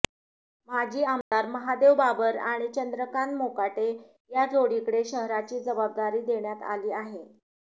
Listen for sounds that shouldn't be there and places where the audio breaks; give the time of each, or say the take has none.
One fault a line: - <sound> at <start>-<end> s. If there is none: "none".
- dropout at 1.2-1.3 s